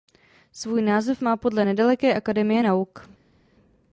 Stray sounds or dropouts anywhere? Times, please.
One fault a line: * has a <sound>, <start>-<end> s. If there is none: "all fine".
all fine